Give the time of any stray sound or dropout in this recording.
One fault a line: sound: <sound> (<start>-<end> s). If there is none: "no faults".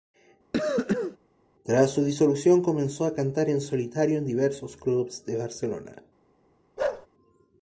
sound: cough (0.5-1.2 s)
sound: bark (6.8-7.1 s)